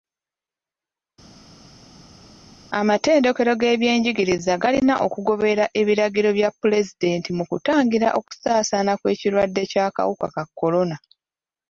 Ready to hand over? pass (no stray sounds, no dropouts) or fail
pass